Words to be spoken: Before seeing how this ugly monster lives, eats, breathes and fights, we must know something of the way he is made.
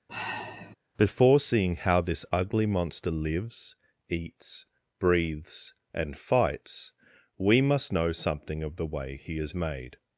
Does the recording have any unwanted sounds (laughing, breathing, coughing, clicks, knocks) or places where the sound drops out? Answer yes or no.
yes